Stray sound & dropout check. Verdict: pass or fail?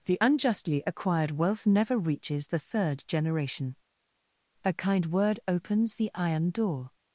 pass